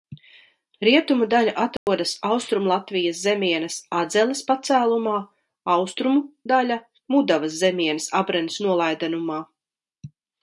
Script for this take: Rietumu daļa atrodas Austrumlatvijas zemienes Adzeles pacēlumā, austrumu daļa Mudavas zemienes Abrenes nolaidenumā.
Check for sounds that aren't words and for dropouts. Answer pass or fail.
fail